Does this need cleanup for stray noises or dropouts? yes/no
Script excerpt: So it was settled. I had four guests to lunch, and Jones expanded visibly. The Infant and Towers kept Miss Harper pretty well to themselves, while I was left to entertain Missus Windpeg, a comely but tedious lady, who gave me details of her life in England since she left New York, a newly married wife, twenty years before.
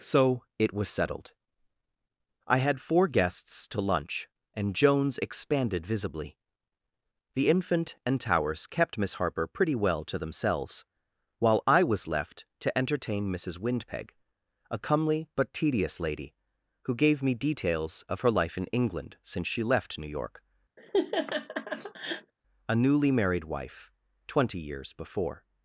yes